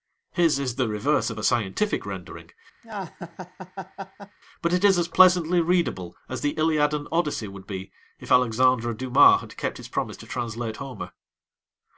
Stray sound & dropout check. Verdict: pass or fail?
fail